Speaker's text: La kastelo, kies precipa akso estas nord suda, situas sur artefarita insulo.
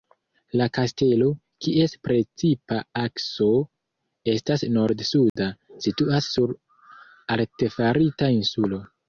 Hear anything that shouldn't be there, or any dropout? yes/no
yes